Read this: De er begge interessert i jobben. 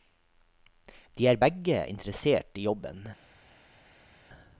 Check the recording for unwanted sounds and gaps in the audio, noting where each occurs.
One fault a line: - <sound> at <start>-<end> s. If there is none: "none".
none